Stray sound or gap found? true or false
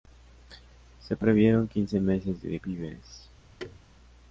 true